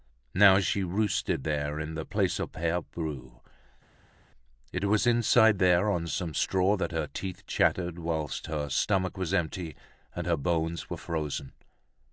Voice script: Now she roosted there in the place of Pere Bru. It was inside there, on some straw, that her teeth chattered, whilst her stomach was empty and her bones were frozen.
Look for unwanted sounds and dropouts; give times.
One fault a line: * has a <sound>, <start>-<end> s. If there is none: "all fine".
all fine